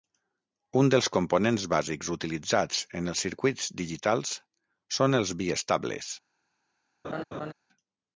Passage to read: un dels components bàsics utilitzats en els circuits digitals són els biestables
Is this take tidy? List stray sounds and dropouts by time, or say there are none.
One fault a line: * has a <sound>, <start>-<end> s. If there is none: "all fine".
* has a laugh, 7.0-7.5 s